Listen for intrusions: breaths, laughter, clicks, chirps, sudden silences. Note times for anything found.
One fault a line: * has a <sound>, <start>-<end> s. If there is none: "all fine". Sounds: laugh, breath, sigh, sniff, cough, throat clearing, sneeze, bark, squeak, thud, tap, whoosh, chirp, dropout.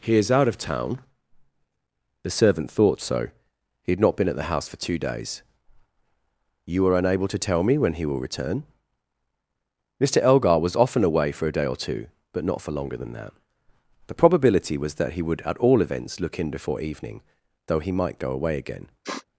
* has a sniff, 19.0-19.3 s